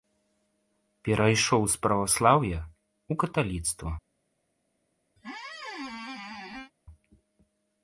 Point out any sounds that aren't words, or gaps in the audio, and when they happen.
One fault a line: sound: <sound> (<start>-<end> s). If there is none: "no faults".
sound: squeak (5.2-6.7 s)